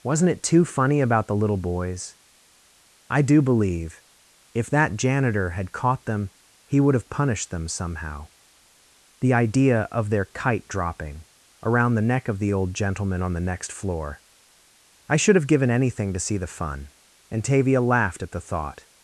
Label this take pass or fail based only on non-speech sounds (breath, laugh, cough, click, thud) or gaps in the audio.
pass